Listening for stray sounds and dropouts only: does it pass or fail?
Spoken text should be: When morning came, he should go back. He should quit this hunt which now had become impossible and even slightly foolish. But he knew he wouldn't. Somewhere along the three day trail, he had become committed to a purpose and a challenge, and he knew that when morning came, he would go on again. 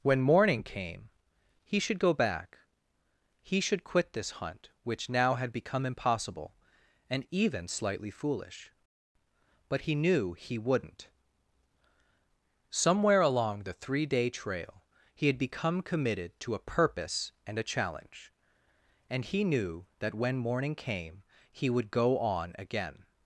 pass